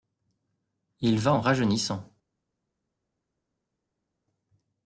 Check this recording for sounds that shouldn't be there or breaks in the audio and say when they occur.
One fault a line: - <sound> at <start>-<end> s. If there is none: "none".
none